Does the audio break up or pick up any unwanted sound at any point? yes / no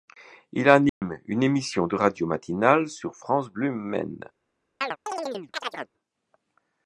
yes